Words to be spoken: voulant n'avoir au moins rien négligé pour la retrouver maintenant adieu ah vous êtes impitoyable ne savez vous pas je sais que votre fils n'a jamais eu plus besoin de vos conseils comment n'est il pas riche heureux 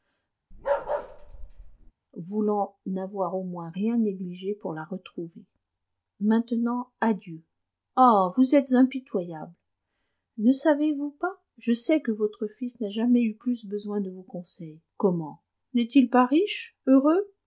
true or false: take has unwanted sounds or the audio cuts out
true